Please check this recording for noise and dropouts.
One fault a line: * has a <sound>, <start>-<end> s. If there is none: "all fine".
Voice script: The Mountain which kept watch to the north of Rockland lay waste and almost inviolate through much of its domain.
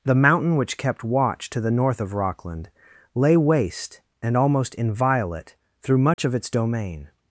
* has a dropout, 6.1-6.2 s